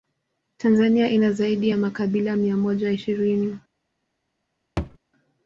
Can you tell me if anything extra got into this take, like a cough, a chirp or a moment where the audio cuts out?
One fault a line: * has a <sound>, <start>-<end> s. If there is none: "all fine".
* has a thud, 4.8-5.0 s